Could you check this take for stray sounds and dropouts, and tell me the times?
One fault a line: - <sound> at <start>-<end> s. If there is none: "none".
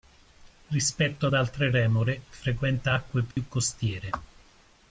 - dropout at 3.3-3.4 s